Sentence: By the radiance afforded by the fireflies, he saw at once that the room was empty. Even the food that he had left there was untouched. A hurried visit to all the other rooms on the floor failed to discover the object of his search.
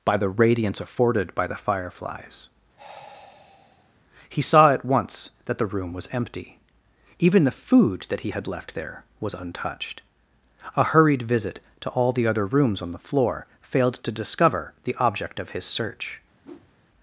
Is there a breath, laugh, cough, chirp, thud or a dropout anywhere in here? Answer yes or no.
yes